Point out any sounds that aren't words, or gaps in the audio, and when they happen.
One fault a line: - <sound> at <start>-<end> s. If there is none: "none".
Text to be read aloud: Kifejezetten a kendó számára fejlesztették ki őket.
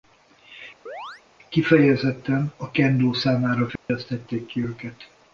- chirp at 0.9-1.2 s
- dropout at 3.8-3.9 s